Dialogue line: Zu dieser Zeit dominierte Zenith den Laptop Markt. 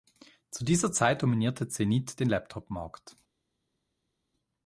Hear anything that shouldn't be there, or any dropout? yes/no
no